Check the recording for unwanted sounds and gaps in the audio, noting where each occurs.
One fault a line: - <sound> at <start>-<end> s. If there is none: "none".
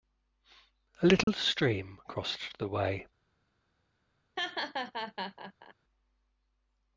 - dropout at 1.2-1.3 s
- laugh at 4.4-5.7 s